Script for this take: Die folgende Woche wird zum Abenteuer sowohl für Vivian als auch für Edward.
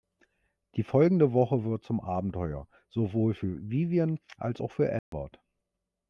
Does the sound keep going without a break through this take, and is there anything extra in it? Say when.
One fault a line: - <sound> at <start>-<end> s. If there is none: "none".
- dropout at 5.0-5.1 s